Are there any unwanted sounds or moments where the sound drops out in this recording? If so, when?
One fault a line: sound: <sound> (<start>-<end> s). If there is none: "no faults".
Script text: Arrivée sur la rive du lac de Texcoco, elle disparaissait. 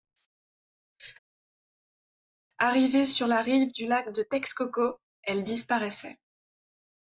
no faults